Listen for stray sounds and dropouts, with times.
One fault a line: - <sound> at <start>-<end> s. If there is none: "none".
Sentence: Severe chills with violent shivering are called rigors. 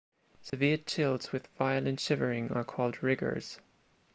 - dropout at 0.5-0.5 s